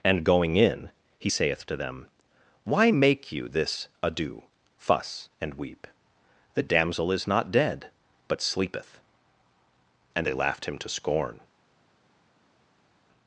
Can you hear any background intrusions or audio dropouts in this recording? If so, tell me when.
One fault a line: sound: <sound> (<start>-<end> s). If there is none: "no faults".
no faults